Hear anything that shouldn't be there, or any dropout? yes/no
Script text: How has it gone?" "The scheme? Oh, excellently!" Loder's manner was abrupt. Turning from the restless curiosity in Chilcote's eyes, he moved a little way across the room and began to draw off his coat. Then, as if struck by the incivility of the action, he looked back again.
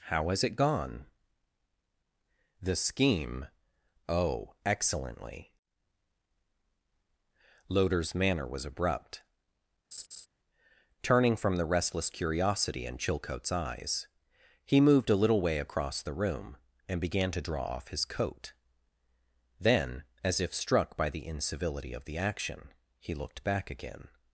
yes